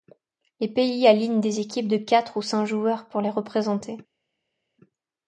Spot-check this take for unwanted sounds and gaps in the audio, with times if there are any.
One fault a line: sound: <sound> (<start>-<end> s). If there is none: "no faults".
no faults